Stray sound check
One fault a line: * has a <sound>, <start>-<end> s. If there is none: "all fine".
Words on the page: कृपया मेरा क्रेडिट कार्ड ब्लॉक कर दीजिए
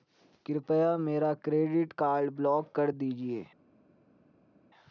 all fine